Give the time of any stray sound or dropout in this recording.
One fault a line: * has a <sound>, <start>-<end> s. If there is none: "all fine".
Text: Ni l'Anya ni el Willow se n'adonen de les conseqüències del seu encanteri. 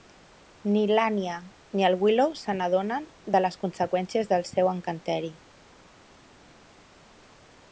all fine